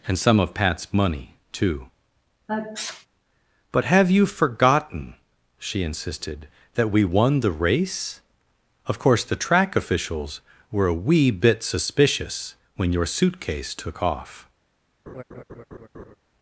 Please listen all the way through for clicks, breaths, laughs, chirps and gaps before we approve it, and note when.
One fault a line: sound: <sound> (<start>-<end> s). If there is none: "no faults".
sound: sneeze (2.5-3.1 s)
sound: laugh (15.1-16.2 s)